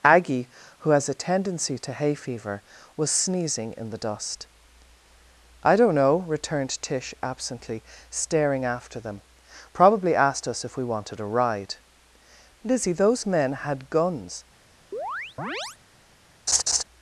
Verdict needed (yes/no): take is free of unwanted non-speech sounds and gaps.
no